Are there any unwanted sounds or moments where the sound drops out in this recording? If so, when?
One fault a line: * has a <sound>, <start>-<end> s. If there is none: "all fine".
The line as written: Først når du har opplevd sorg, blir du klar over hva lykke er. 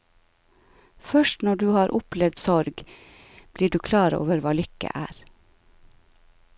all fine